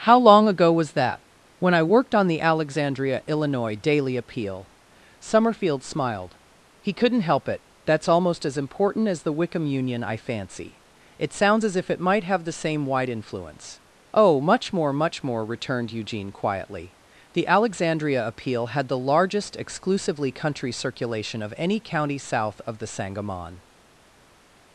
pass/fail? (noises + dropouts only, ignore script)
pass